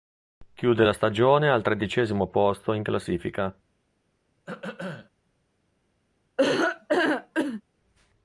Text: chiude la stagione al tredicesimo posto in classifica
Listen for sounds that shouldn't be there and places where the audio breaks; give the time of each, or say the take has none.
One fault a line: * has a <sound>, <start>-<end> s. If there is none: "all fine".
* has a throat clearing, 4.5-5.1 s
* has a laugh, 6.4-7.6 s